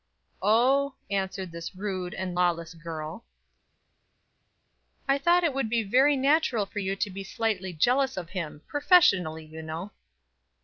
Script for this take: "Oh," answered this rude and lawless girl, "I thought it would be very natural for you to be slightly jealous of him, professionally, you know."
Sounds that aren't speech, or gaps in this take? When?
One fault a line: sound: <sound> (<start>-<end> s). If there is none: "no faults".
no faults